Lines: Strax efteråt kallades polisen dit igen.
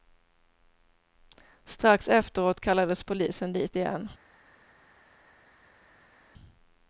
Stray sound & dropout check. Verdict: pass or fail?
pass